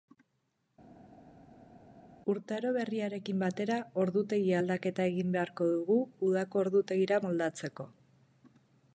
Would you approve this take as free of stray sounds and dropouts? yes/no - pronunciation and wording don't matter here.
yes